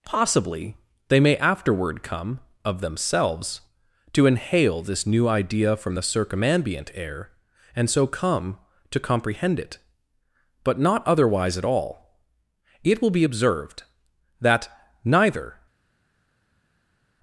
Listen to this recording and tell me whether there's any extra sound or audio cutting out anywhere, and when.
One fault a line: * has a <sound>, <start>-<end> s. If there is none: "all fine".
all fine